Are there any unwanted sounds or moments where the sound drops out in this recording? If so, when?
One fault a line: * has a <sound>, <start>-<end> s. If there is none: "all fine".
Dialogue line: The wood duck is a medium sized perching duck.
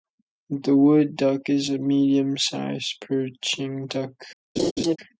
* has a laugh, 4.6-5.0 s